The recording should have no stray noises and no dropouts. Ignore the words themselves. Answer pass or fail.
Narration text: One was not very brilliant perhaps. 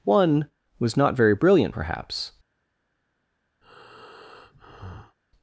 fail